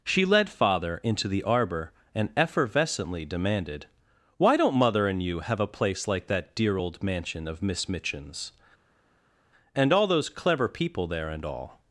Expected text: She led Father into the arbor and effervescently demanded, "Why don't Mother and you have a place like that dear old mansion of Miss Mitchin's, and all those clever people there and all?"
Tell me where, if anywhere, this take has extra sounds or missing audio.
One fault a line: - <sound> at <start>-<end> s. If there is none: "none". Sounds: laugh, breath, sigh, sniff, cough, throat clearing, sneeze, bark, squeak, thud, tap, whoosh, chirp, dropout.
none